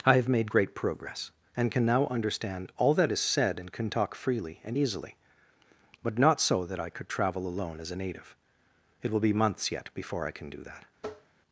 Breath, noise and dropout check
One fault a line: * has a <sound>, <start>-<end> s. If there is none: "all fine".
* has a tap, 11.0-11.4 s